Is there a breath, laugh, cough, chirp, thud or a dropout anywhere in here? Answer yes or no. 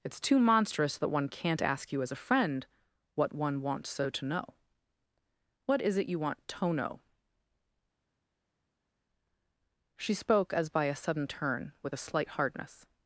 no